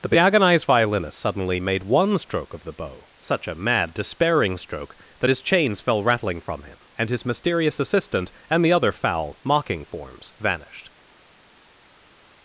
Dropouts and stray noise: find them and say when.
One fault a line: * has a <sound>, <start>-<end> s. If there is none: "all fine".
all fine